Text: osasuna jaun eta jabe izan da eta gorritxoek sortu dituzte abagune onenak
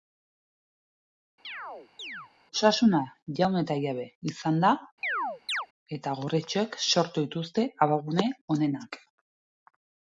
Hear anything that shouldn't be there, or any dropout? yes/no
yes